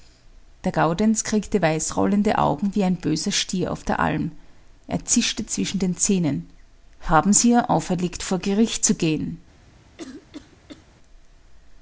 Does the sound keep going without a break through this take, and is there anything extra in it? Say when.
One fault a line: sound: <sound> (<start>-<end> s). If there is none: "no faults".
sound: cough (10.0-10.9 s)